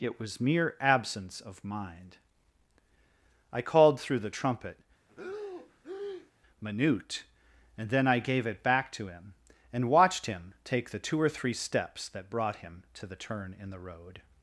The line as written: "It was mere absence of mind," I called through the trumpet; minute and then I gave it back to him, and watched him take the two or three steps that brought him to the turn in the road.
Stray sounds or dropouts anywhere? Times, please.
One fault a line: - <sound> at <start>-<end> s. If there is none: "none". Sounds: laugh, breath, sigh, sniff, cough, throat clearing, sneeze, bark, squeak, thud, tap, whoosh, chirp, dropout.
- breath at 5.1-6.3 s